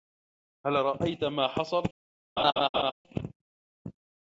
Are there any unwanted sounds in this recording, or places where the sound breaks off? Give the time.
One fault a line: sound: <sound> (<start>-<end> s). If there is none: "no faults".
sound: laugh (2.4-2.9 s)